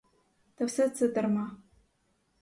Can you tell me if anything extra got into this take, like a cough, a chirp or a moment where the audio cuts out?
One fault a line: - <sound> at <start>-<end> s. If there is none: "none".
none